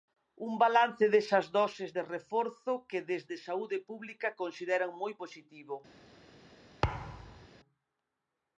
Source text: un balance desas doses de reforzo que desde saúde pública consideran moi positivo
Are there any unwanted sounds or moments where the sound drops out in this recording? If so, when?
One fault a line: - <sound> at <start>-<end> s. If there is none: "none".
- thud at 6.8-7.5 s